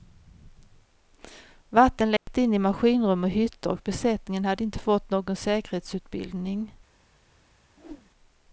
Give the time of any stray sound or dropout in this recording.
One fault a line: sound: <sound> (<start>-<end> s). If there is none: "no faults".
sound: dropout (2.2-2.3 s)
sound: whoosh (7.8-8.1 s)